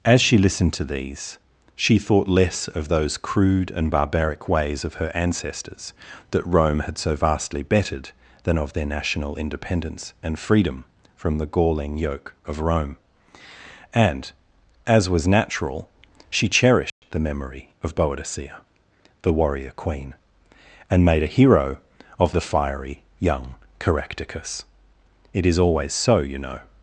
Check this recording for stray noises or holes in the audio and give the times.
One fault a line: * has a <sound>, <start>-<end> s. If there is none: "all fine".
* has a dropout, 16.9-17.0 s